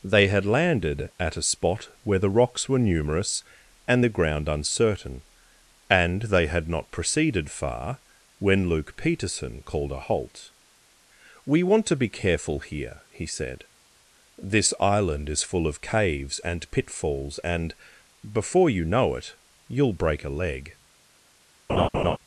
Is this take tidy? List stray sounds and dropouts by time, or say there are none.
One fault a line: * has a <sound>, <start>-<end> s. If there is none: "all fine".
* has a laugh, 21.7-22.2 s